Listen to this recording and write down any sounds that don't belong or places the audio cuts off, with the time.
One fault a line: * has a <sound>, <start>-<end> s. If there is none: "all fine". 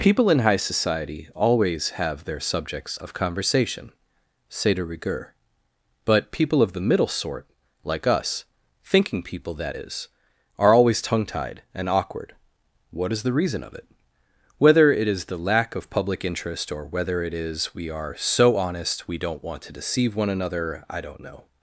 all fine